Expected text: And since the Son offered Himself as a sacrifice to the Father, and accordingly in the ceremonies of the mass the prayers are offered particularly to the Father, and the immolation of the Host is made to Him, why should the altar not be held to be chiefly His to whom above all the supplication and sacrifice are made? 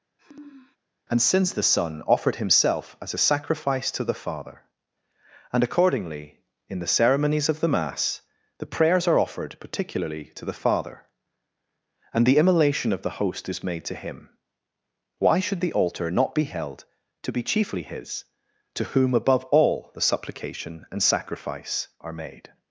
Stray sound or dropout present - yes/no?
yes